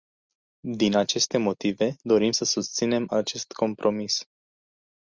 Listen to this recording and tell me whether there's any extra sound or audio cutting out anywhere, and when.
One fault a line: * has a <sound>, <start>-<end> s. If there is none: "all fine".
all fine